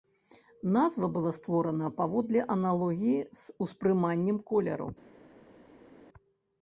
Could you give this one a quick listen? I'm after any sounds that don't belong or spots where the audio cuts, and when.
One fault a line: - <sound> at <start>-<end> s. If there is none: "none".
none